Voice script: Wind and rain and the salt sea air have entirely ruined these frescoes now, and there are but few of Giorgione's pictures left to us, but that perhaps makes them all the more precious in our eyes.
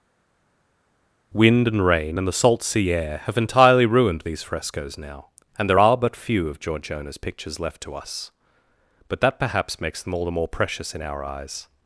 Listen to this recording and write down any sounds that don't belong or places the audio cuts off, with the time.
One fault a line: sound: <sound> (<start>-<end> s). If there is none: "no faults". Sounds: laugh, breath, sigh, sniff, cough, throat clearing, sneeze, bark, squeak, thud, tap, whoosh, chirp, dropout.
no faults